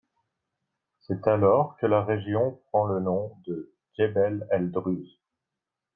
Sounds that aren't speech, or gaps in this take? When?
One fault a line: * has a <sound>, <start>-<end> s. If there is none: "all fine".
all fine